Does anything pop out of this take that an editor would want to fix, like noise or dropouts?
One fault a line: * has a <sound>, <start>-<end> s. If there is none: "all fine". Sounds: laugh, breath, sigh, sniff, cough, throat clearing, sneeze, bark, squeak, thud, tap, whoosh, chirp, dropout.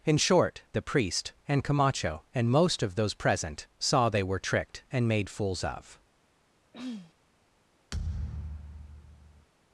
* has a throat clearing, 6.7-7.1 s
* has a thud, 7.9-9.5 s